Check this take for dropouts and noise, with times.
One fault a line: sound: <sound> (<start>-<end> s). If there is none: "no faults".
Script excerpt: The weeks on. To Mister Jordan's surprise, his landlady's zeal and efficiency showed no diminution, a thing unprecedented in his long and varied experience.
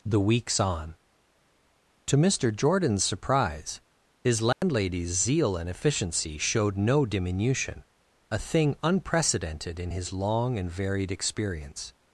sound: dropout (4.5-4.6 s)